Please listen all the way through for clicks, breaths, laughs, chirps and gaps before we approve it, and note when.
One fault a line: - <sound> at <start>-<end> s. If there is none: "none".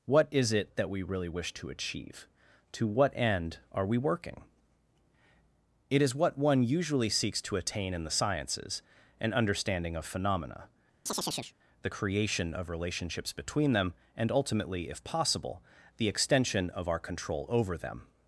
- chirp at 11.1-11.5 s